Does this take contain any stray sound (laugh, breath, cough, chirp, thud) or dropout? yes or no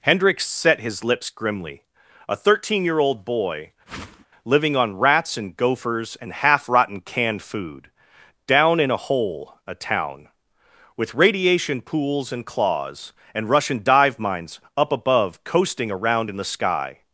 yes